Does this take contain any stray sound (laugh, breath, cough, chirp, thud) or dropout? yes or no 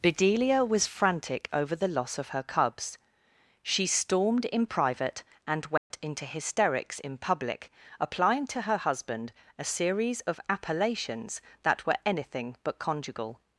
yes